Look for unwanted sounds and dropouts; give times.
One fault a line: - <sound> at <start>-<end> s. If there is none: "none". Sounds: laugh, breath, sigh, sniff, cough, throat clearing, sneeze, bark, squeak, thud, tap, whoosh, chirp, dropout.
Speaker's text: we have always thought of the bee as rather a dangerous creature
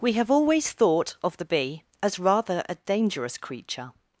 none